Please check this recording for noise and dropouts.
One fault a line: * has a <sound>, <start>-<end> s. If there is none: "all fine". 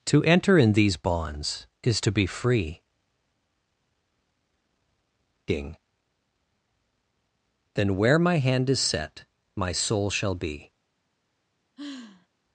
* has a sigh, 11.8-12.3 s